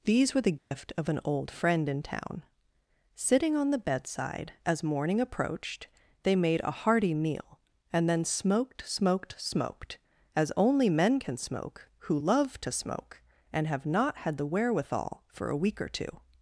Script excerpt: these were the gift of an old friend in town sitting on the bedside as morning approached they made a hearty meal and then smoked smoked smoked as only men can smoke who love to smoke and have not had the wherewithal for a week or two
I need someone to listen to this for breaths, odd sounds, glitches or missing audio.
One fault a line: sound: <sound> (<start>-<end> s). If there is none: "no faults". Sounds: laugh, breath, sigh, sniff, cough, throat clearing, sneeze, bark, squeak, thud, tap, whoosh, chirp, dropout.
sound: dropout (0.6-0.7 s)